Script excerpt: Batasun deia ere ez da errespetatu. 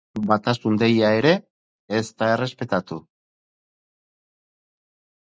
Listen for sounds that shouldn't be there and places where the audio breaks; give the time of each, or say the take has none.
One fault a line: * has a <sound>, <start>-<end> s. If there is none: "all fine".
all fine